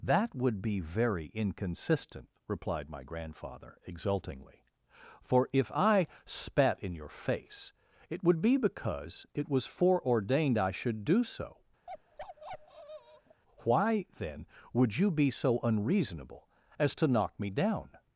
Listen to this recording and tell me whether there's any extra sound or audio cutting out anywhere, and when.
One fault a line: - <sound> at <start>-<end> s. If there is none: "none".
- bark at 11.9-13.4 s